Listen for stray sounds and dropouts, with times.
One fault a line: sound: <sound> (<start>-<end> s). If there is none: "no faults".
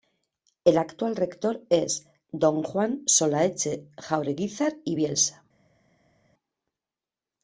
no faults